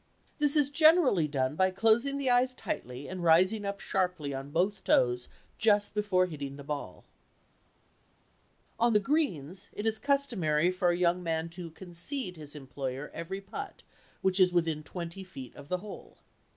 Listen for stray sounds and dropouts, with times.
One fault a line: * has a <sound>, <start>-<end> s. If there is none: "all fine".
all fine